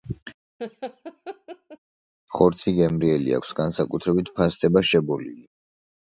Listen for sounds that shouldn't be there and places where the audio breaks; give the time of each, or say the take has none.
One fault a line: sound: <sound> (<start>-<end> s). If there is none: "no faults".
sound: laugh (0.6-1.8 s)